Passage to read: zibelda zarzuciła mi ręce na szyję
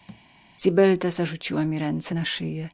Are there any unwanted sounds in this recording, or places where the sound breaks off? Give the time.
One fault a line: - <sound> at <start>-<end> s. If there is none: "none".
- thud at 0.1-0.3 s